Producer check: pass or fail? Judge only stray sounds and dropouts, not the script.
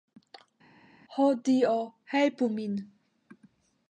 pass